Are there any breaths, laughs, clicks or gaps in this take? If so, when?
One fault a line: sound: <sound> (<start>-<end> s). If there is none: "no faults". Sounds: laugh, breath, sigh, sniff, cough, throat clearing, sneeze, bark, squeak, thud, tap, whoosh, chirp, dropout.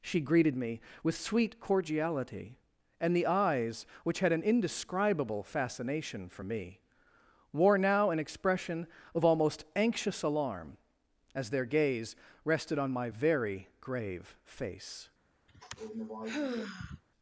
sound: sigh (15.5-17.0 s)